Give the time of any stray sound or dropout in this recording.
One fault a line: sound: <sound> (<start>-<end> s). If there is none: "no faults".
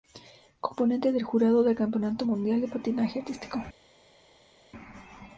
no faults